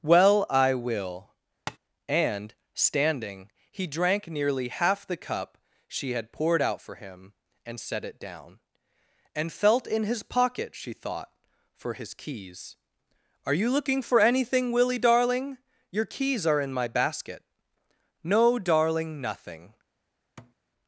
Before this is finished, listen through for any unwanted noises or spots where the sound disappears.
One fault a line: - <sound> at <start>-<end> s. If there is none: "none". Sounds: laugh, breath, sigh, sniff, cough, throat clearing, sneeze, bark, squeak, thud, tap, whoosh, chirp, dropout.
- tap at 1.7-1.8 s
- thud at 20.4-20.6 s